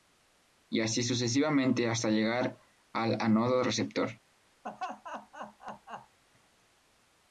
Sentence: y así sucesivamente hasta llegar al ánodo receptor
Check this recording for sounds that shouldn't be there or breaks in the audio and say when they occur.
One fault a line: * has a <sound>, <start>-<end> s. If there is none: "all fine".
* has a laugh, 4.6-6.2 s